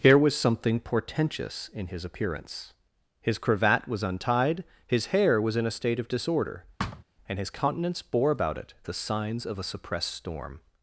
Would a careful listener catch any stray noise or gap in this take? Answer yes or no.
yes